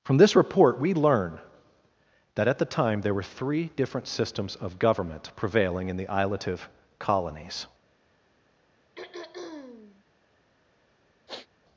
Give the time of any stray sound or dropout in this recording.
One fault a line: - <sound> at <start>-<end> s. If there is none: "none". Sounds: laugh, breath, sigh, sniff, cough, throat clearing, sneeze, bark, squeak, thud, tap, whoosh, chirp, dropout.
- throat clearing at 9.0-10.0 s
- sniff at 11.3-11.5 s